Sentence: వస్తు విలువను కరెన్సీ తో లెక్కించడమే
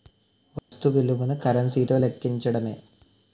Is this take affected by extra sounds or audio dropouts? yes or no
yes